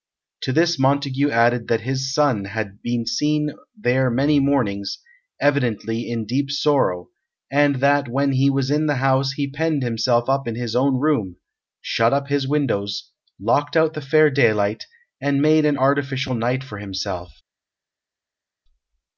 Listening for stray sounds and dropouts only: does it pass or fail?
pass